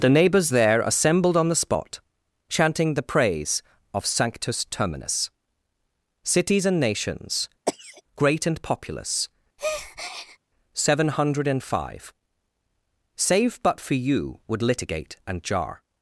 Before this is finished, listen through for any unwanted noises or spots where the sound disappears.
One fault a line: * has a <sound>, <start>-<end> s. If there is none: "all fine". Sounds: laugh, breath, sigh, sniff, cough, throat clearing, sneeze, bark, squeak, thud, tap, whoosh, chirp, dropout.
* has a cough, 7.7-8.0 s
* has a breath, 9.6-10.4 s